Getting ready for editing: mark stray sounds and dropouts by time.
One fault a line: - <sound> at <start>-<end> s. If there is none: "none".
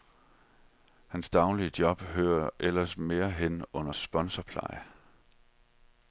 none